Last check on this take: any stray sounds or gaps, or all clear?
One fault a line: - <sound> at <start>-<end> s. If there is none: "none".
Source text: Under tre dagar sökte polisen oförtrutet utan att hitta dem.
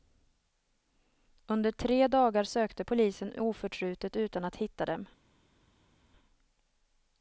none